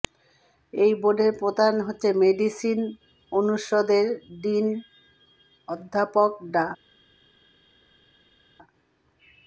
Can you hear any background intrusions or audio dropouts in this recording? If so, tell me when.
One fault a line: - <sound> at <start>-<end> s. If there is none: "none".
none